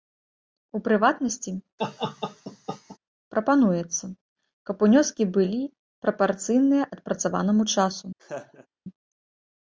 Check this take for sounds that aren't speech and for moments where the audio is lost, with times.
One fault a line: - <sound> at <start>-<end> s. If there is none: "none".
- laugh at 1.8-3.0 s
- laugh at 8.2-8.7 s